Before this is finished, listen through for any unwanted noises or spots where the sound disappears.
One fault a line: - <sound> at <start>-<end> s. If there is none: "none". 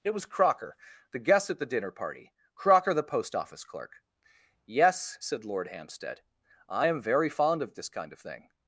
none